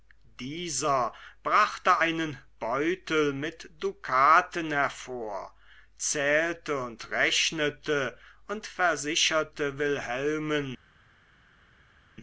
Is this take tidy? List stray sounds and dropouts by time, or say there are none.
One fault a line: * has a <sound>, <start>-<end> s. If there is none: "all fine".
all fine